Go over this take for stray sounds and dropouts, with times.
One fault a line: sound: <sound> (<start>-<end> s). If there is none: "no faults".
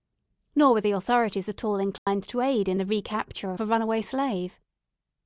sound: dropout (2.0-2.1 s)